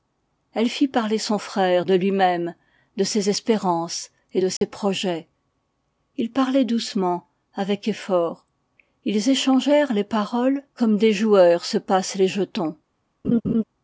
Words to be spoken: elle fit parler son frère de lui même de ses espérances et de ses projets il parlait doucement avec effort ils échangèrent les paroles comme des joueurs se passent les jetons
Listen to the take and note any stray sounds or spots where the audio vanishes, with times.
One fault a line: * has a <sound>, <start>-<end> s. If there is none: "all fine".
* has a dropout, 4.6-4.6 s
* has a laugh, 13.2-13.6 s